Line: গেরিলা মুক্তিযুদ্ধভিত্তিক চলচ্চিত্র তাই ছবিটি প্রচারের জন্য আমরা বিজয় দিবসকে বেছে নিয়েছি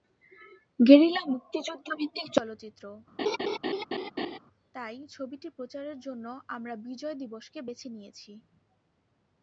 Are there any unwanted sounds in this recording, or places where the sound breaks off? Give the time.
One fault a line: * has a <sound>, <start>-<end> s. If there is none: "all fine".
* has a laugh, 3.2-4.4 s